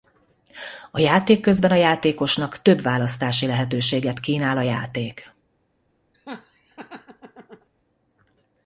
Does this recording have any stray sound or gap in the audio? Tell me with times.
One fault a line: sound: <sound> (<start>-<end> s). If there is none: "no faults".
sound: laugh (6.1-7.7 s)